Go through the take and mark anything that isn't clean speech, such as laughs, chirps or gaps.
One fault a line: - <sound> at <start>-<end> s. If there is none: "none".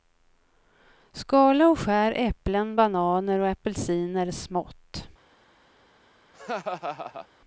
- laugh at 6.3-7.3 s